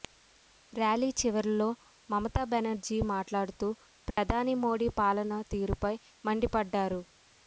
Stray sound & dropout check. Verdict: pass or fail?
fail